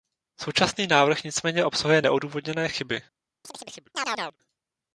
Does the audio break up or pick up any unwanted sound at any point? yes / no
yes